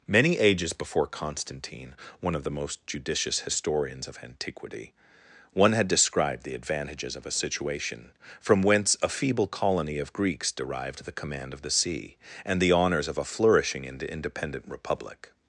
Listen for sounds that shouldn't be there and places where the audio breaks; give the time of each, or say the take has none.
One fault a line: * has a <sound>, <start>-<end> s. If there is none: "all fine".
all fine